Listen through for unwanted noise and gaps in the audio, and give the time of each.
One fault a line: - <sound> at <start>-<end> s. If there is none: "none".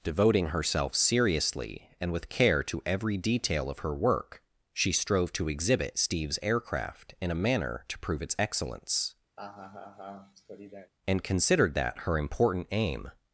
- laugh at 9.4-10.9 s